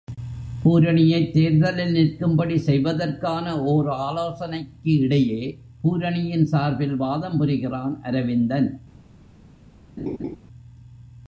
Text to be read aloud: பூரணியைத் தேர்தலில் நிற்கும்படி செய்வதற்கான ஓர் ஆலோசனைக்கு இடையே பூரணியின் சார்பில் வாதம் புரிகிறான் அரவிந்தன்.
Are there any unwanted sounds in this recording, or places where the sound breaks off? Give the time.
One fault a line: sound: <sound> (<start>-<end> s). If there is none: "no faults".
sound: laugh (10.0-10.4 s)